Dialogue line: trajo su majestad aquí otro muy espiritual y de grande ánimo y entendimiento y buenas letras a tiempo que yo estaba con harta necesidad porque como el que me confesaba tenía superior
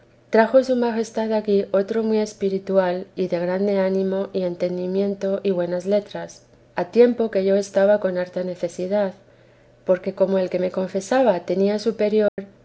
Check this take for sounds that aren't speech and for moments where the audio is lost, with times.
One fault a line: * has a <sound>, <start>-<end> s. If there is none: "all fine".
* has a dropout, 12.3-12.4 s